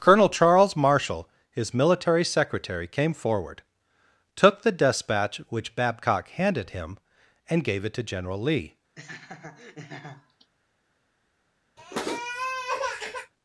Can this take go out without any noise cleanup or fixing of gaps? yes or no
no